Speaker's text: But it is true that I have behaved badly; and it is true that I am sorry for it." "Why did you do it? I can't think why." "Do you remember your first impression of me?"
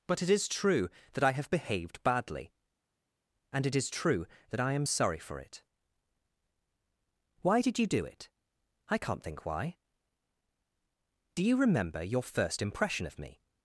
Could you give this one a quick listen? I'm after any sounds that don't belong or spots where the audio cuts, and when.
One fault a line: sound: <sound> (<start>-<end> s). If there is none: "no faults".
no faults